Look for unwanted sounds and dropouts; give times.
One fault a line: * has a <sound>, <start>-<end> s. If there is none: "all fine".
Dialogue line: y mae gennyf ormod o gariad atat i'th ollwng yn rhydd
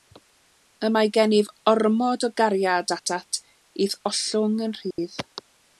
* has a dropout, 4.9-5.0 s